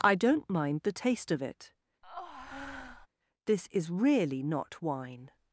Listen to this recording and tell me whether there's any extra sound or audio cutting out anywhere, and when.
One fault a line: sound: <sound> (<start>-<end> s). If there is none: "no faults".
sound: breath (2.0-3.1 s)